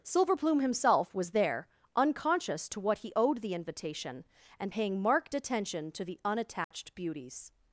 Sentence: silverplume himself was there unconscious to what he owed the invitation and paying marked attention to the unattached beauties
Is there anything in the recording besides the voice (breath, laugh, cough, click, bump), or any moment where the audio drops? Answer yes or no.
yes